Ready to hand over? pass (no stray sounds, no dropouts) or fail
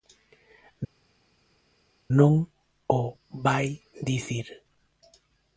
pass